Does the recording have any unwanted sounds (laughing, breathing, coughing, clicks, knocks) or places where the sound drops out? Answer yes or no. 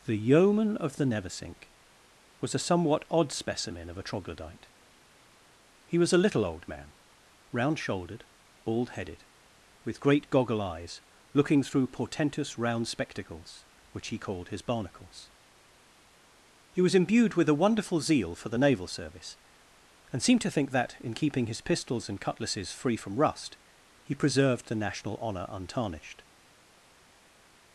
no